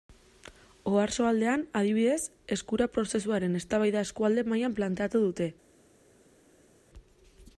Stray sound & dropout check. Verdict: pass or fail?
pass